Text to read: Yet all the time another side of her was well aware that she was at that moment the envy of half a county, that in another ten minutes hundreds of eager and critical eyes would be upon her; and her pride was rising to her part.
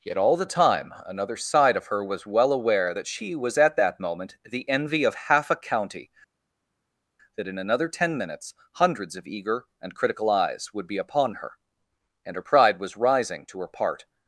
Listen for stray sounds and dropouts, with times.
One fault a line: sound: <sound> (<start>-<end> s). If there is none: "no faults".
no faults